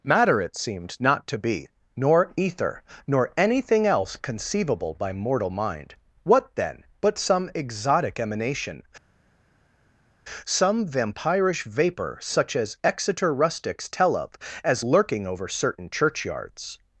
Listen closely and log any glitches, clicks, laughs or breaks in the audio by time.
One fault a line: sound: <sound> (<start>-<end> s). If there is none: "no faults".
no faults